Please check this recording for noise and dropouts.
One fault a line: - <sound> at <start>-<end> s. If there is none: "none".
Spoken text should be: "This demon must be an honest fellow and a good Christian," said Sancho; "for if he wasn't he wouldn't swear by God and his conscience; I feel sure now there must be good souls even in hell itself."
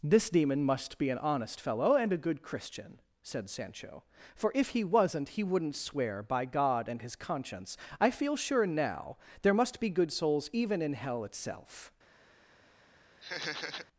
- laugh at 13.2-13.9 s